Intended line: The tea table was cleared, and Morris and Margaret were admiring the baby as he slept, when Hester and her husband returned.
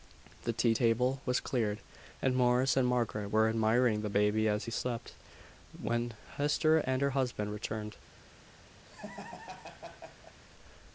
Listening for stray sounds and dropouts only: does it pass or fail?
fail